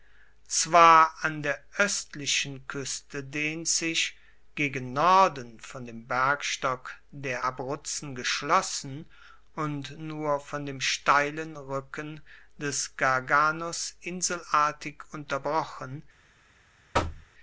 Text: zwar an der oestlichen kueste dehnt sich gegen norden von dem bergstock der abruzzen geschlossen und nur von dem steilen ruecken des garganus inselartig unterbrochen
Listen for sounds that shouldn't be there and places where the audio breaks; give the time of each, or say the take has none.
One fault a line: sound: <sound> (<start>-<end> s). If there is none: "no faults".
sound: thud (16.9-17.3 s)